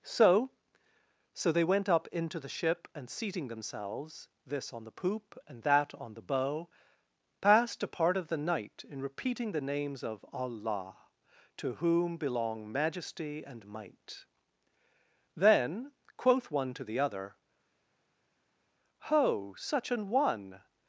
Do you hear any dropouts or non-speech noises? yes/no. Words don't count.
no